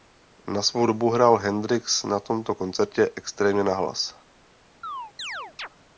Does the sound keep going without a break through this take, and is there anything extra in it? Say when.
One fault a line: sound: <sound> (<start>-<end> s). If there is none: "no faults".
sound: chirp (4.8-5.7 s)